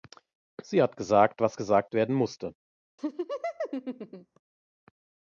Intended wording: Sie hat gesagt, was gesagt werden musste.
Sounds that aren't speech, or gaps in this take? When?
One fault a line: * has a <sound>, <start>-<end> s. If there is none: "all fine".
* has a laugh, 3.0-4.4 s